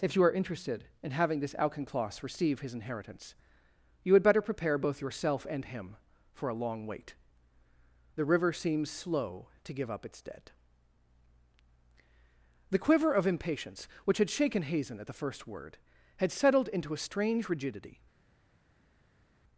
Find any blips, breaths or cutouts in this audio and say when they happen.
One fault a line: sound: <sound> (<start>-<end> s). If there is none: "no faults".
no faults